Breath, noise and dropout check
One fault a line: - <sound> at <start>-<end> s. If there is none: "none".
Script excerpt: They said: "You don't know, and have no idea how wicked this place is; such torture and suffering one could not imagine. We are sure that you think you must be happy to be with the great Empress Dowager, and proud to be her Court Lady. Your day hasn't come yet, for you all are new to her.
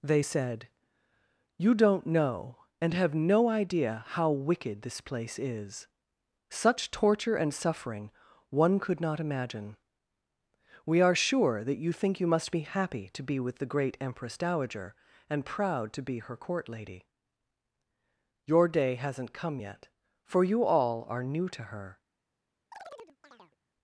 - chirp at 22.7-23.6 s